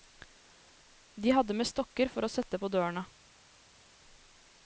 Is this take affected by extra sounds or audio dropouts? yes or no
no